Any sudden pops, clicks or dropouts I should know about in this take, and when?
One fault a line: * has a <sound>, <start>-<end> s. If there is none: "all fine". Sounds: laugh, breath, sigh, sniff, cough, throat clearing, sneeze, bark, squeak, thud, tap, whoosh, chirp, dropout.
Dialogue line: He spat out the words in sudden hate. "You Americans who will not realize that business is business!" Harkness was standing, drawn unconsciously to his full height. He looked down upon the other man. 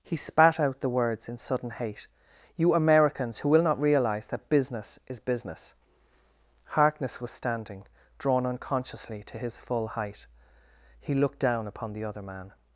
all fine